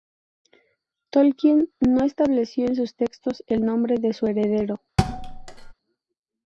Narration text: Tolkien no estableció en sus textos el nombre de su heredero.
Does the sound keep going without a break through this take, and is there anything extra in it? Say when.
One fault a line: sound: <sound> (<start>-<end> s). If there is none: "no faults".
sound: thud (5.0-5.7 s)